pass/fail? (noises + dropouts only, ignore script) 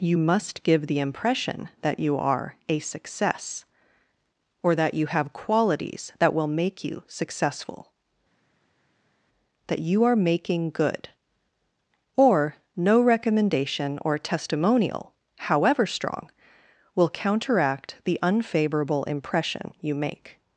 pass